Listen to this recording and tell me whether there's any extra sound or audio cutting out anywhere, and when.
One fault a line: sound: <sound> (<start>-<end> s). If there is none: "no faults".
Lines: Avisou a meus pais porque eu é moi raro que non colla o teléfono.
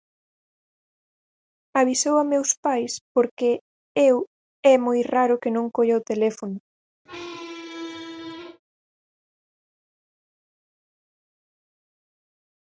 sound: squeak (7.1-8.6 s)